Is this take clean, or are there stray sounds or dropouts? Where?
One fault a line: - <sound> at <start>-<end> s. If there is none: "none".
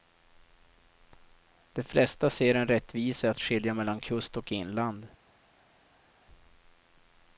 none